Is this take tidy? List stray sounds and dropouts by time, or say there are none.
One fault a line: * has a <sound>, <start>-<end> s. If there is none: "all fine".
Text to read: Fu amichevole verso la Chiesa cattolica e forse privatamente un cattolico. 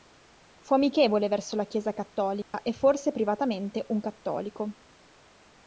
* has a dropout, 2.4-2.5 s